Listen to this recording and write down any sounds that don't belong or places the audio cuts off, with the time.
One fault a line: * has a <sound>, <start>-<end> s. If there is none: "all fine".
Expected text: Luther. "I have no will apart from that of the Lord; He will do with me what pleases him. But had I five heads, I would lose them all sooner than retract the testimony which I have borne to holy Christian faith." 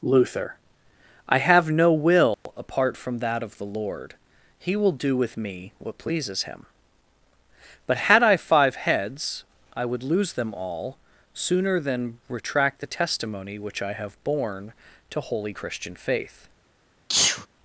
* has a dropout, 2.3-2.5 s
* has a sneeze, 17.1-17.5 s